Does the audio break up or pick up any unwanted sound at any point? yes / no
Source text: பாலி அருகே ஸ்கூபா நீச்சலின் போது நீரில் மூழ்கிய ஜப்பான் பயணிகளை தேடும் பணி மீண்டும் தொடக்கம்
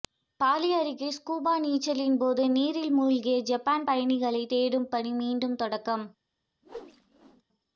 yes